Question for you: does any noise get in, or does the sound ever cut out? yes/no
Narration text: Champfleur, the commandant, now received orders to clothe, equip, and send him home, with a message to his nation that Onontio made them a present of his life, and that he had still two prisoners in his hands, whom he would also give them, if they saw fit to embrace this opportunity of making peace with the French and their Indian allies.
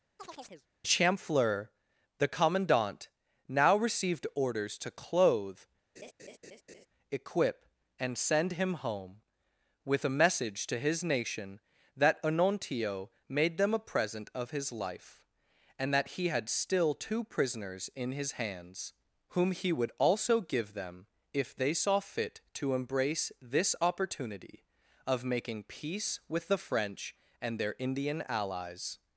yes